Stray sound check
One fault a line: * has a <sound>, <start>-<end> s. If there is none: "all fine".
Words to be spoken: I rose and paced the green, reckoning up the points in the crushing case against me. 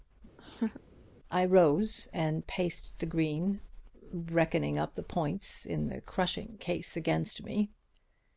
* has a laugh, 0.4-0.8 s